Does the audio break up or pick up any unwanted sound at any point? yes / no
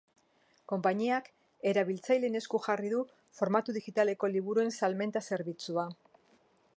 no